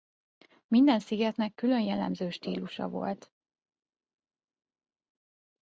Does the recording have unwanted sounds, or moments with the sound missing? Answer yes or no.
no